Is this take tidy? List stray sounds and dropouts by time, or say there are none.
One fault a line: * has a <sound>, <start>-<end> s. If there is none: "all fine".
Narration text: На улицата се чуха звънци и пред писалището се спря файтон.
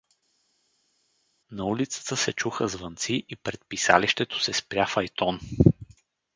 all fine